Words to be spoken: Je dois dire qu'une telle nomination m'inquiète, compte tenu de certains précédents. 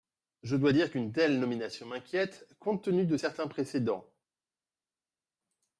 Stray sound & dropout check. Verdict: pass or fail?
pass